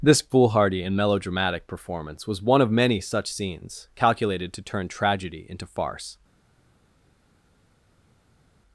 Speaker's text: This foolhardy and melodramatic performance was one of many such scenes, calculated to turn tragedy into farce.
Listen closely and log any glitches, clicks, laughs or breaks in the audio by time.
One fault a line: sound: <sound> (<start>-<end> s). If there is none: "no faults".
no faults